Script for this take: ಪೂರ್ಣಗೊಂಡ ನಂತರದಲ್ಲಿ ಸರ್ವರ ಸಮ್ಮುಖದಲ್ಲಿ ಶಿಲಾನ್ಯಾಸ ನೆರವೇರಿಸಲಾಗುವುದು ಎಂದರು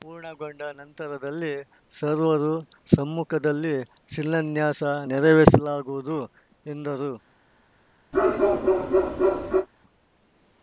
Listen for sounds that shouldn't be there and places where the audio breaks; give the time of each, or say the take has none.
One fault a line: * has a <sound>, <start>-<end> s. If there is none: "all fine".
* has a bark, 8.1-9.7 s